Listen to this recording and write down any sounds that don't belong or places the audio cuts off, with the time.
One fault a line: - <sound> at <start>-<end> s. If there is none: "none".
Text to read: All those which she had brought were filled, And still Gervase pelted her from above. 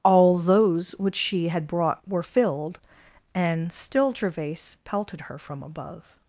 none